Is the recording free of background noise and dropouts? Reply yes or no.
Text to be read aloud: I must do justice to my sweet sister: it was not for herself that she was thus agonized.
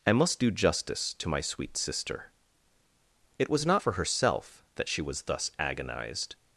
yes